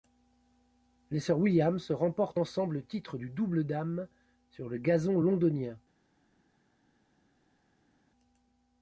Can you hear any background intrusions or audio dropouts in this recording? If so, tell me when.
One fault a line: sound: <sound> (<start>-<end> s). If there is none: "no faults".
no faults